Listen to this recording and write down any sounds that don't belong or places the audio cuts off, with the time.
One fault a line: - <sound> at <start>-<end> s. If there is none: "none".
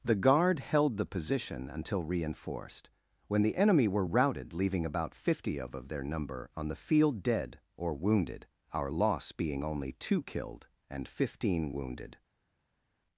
none